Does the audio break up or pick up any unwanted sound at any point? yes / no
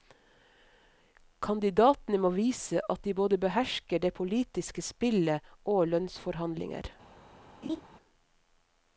yes